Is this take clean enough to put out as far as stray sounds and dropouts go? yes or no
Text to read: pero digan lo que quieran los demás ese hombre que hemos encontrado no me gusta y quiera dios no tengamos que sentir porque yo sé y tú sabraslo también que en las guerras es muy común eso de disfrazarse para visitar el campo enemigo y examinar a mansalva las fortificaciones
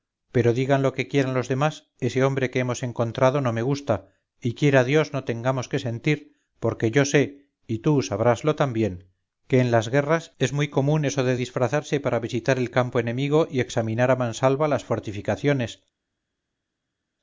yes